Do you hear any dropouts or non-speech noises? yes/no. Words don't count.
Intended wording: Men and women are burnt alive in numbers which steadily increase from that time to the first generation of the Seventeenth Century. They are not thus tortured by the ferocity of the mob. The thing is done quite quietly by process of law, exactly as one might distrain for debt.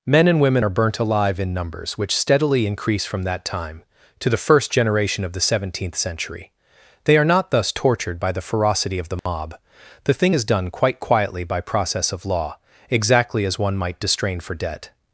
yes